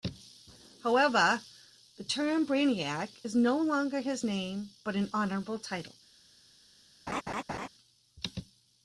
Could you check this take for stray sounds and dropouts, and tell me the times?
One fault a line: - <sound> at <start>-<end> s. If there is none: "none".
- laugh at 7.1-7.7 s